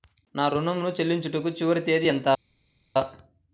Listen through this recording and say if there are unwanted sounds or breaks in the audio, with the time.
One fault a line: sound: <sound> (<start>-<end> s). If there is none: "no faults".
no faults